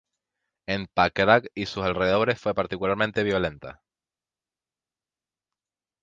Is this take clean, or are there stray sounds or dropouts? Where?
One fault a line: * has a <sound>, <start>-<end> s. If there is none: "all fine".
all fine